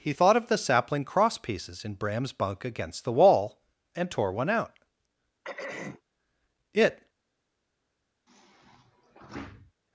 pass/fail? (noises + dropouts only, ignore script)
fail